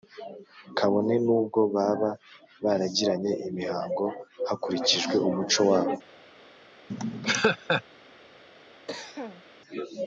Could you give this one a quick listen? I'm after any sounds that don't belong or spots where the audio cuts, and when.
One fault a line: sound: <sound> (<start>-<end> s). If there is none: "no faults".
sound: laugh (6.9-7.8 s)
sound: cough (8.9-9.4 s)